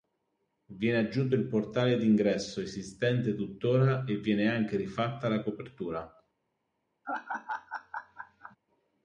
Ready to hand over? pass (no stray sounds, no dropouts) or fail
fail